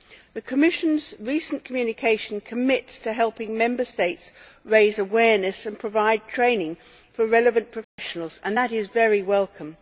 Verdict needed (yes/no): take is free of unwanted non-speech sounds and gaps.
no